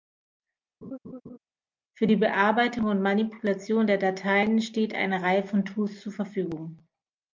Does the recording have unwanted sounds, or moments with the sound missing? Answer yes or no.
yes